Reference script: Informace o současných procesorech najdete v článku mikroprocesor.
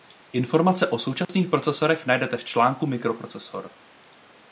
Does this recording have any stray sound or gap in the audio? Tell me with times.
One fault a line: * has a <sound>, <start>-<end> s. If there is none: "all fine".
* has a dropout, 1.2-1.3 s